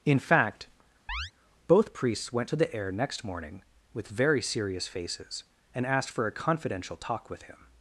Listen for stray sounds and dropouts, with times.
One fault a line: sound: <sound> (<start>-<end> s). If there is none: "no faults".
sound: chirp (1.1-1.3 s)